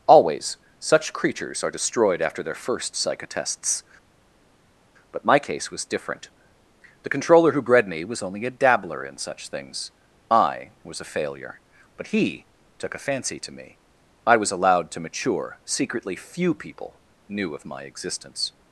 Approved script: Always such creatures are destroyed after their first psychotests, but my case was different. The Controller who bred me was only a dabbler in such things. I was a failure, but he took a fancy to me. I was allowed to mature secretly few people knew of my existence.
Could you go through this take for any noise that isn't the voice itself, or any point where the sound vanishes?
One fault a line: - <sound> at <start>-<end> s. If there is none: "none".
none